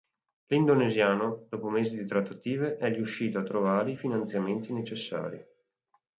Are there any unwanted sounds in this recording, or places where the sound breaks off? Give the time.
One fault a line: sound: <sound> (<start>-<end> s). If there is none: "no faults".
no faults